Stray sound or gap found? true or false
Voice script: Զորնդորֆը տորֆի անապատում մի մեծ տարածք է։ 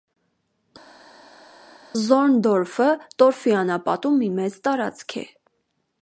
false